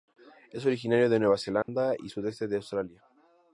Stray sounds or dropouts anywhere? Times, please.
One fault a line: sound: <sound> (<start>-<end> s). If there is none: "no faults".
sound: dropout (1.6-1.7 s)